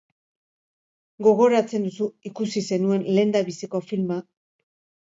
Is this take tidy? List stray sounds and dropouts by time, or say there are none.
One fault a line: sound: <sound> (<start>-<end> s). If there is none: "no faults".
no faults